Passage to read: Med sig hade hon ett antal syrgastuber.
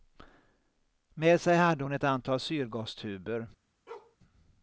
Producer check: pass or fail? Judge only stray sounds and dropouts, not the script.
fail